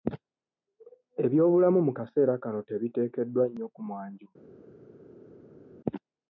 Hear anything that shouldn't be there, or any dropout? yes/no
no